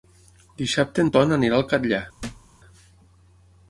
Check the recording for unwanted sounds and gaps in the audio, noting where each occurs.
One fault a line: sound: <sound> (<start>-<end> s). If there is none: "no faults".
sound: thud (2.2-2.5 s)